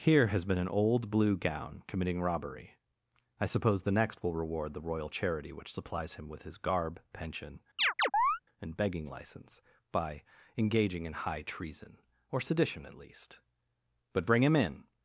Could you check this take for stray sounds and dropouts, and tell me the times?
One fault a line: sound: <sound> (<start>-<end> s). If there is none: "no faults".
sound: chirp (7.8-8.4 s)